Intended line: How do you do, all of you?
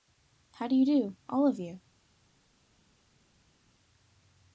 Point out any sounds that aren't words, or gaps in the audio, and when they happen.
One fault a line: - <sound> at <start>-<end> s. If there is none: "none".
none